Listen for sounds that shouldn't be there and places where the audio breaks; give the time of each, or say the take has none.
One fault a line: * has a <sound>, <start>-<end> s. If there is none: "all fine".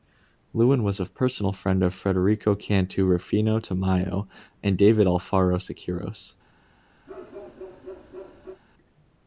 * has a bark, 7.1-8.6 s